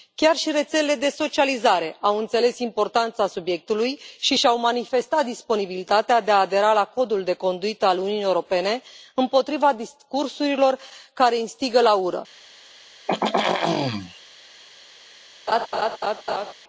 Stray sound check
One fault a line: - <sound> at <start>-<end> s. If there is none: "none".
- throat clearing at 13.1-14.2 s
- laugh at 15.5-16.5 s